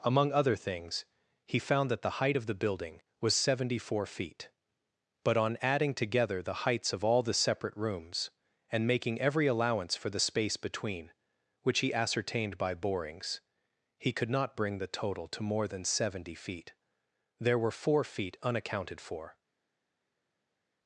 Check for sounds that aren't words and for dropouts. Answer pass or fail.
pass